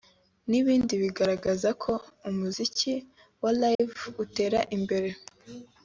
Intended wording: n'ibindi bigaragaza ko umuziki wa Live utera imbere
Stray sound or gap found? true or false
true